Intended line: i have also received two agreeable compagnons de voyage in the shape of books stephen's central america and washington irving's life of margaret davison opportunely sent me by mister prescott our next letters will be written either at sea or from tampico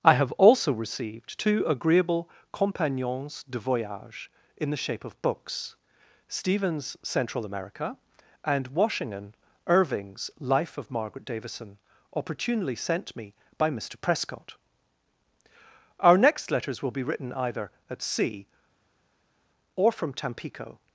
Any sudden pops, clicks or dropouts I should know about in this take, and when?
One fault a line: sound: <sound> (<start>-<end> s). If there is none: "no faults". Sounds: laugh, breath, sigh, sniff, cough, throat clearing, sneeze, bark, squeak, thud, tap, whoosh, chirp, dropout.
no faults